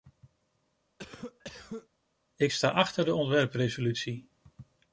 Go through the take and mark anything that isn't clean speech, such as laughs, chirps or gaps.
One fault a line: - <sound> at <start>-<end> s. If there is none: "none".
- cough at 1.0-1.9 s